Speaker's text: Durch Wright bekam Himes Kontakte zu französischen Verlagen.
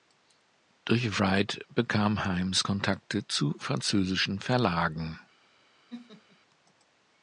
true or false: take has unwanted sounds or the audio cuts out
true